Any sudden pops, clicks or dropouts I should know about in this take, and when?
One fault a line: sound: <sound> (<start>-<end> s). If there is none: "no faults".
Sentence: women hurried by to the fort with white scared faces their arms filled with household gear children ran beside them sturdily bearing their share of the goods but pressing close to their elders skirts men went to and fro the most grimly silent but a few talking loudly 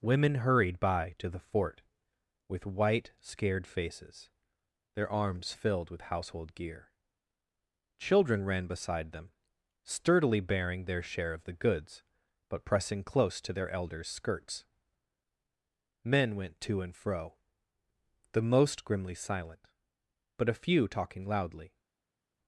no faults